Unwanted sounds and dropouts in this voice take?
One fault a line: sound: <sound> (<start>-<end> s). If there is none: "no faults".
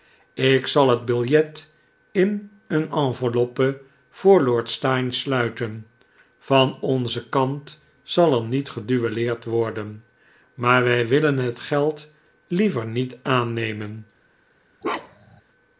sound: bark (14.8-15.4 s)